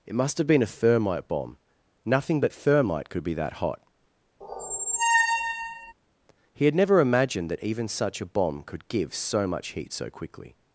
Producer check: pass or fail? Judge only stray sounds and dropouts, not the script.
fail